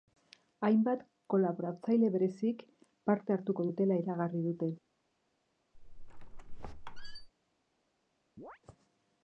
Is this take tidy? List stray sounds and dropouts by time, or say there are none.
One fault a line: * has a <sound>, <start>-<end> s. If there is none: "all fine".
* has a squeak, 5.7-7.3 s
* has a chirp, 8.4-8.6 s